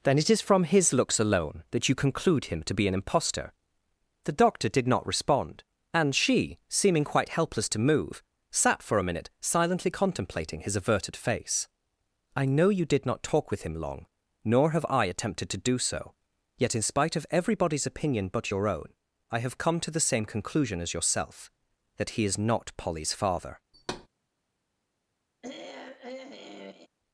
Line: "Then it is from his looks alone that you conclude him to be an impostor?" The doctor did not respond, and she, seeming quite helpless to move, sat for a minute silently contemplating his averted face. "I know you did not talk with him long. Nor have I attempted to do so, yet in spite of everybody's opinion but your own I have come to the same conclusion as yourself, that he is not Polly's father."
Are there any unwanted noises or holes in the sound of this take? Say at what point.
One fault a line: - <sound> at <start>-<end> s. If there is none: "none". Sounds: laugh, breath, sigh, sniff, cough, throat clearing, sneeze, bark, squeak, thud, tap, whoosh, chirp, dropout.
- thud at 23.7-24.1 s
- throat clearing at 25.4-26.9 s